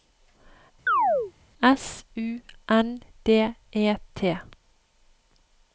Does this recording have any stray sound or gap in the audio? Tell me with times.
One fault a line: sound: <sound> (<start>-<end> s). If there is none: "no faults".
sound: chirp (0.9-1.3 s)